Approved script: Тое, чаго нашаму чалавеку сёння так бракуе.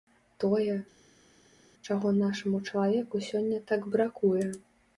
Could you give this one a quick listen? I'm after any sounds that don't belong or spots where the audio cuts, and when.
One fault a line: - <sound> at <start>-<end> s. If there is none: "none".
none